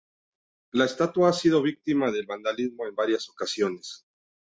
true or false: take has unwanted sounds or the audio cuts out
false